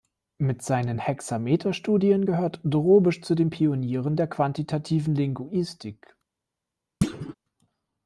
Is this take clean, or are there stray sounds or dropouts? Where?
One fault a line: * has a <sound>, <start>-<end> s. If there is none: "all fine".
* has a thud, 7.0-7.3 s